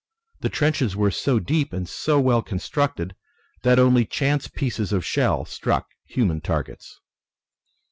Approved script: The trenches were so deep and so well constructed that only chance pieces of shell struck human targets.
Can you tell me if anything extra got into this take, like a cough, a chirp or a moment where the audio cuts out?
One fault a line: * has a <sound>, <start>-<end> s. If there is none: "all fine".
all fine